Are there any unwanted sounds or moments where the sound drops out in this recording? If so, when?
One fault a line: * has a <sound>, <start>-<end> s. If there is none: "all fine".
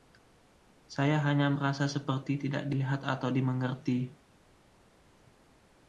all fine